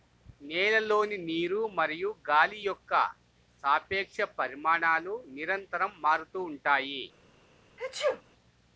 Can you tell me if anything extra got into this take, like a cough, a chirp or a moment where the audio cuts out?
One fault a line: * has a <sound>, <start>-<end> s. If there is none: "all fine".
* has a sneeze, 7.8-8.2 s